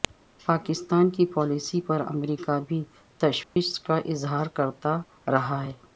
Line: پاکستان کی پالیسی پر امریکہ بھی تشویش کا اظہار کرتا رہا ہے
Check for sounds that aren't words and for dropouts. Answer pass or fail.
fail